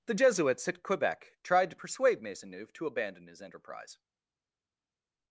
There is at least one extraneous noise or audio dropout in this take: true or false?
false